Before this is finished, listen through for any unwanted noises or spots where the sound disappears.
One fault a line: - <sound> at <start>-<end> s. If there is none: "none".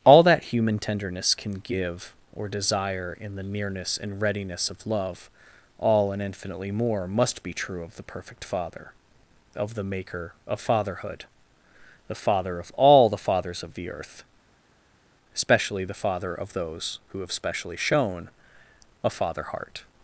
none